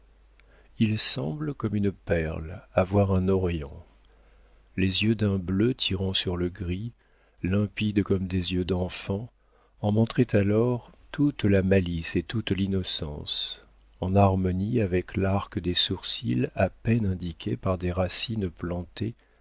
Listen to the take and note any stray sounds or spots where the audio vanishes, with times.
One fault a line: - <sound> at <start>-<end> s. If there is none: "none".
none